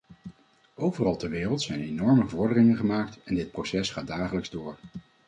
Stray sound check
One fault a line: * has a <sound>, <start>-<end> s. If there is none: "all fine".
all fine